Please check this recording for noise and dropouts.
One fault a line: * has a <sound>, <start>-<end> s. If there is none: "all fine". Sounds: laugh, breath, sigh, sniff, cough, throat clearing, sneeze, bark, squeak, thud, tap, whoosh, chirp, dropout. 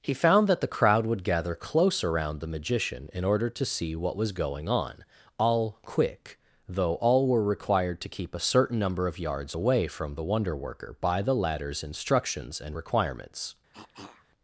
* has a cough, 13.7-14.3 s